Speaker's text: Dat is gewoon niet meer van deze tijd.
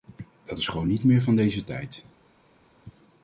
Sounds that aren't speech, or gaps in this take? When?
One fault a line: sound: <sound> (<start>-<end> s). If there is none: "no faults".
no faults